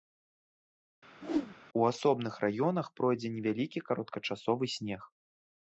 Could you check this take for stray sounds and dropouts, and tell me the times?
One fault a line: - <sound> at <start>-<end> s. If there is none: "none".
- whoosh at 1.2-1.6 s